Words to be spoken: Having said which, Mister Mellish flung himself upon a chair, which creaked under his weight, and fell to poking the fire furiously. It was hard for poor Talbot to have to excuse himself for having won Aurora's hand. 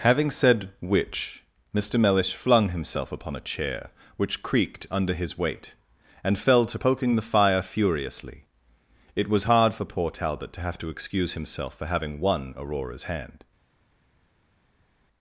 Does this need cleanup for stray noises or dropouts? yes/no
no